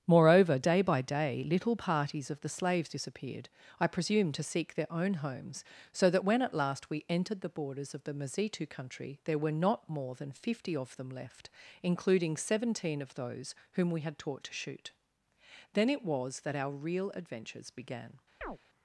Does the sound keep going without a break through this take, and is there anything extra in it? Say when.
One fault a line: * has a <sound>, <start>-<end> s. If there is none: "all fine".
* has a chirp, 18.4-18.6 s